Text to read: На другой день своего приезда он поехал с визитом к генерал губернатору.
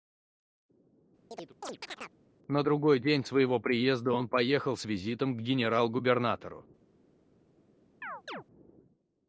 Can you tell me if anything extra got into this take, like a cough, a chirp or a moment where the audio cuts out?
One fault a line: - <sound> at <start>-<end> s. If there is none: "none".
- chirp at 1.3-2.2 s
- chirp at 8.0-8.4 s